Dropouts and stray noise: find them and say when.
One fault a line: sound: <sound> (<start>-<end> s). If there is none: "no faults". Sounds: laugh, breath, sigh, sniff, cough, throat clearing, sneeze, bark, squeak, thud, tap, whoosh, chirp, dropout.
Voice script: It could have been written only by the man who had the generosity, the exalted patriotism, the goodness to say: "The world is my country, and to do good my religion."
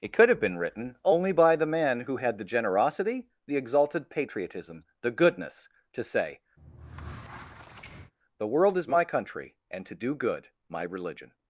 sound: squeak (6.6-8.1 s)